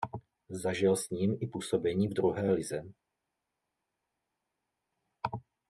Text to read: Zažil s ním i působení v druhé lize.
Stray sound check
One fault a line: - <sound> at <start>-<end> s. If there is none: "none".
none